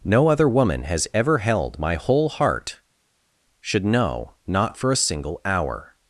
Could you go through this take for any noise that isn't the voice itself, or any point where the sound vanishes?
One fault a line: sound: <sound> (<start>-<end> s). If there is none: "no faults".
no faults